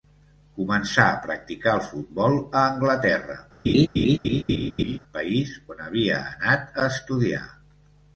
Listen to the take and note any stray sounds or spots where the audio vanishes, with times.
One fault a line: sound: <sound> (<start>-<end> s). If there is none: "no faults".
sound: laugh (3.6-5.0 s)